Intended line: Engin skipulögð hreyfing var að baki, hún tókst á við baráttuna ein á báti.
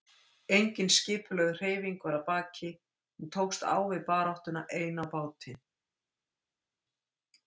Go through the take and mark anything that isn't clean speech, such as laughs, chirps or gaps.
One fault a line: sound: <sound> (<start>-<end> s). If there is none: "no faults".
no faults